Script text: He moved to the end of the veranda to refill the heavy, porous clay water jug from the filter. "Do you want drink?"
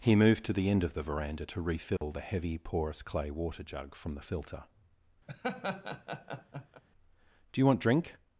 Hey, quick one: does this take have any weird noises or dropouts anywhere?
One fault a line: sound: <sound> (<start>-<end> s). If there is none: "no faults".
sound: dropout (2.0-2.0 s)
sound: laugh (5.3-6.8 s)